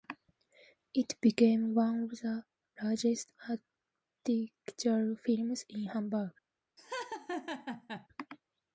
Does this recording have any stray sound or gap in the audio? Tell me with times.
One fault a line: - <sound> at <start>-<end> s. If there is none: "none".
- laugh at 6.8-8.1 s